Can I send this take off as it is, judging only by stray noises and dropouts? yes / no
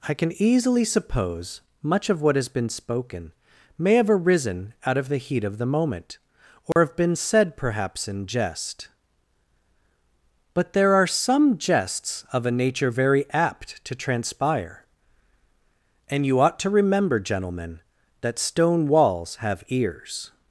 no